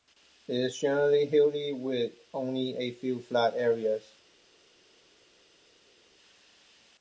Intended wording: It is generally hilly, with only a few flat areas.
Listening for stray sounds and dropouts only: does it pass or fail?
pass